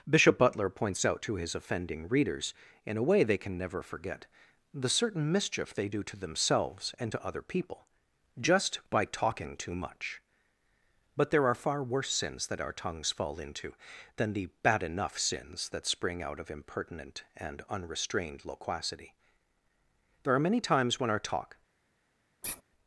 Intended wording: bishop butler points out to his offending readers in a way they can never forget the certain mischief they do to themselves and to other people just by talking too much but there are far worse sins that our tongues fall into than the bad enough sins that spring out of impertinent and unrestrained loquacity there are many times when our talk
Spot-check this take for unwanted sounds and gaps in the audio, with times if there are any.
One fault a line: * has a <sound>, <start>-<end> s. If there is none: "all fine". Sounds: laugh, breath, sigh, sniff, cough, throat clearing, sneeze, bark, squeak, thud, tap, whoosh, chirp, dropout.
* has a sigh, 22.4-22.6 s